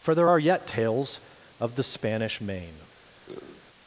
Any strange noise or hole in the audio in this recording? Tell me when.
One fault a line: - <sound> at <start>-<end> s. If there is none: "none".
- sniff at 3.3-3.6 s